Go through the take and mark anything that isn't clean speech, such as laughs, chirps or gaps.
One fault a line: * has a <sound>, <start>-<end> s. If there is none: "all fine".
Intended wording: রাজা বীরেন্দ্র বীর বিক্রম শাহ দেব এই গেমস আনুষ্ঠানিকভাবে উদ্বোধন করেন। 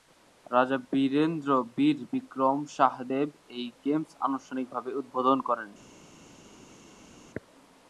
all fine